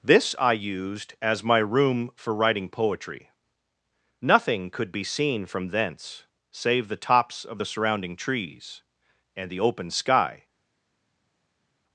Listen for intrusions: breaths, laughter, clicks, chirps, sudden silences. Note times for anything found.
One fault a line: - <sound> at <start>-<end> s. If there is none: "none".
none